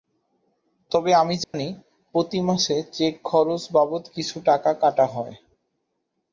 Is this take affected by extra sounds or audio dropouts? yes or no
yes